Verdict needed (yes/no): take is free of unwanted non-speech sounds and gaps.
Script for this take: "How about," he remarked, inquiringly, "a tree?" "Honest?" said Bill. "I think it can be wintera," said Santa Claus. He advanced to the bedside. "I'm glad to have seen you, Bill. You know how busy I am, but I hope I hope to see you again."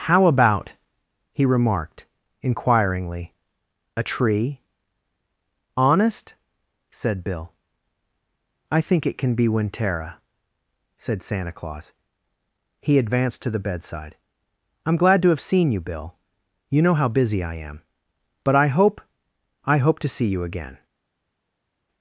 yes